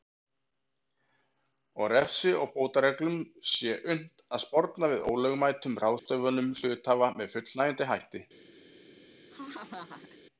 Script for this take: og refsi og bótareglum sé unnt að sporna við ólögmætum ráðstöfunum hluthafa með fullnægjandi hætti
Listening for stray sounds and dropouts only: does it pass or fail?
fail